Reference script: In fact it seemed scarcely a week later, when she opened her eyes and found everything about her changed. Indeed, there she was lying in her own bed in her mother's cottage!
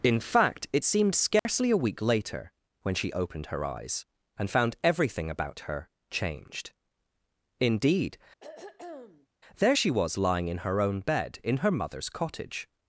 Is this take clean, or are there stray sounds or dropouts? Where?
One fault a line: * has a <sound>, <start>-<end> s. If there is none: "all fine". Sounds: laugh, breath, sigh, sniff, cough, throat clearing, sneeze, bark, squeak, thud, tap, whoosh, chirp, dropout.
* has a dropout, 1.4-1.5 s
* has a throat clearing, 8.4-9.3 s